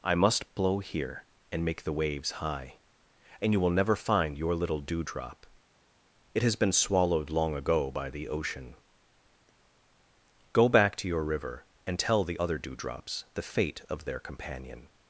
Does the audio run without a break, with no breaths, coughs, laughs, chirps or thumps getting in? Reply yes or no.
yes